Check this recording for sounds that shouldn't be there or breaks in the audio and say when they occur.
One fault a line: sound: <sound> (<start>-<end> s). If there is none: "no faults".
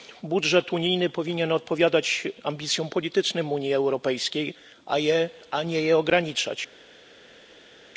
no faults